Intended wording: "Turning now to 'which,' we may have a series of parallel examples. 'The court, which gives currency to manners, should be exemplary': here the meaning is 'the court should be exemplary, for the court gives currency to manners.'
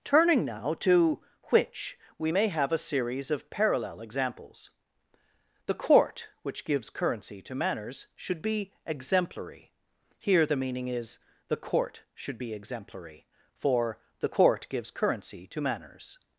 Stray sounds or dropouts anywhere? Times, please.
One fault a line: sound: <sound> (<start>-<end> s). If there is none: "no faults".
no faults